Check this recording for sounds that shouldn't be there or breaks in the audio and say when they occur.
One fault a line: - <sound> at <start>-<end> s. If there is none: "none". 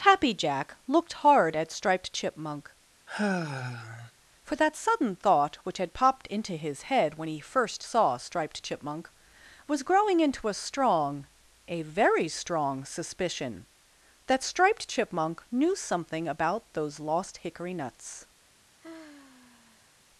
- sigh at 3.1-4.1 s
- sigh at 18.8-19.9 s